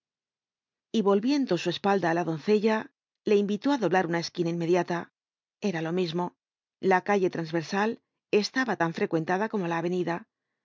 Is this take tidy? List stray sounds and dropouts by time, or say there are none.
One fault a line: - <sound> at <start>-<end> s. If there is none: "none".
none